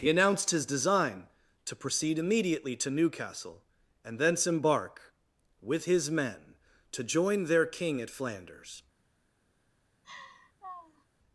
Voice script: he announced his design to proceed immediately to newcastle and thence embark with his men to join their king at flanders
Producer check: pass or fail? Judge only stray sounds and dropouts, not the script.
fail